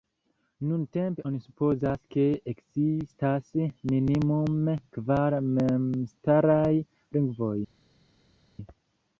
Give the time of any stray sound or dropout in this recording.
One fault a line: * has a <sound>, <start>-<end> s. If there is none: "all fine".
all fine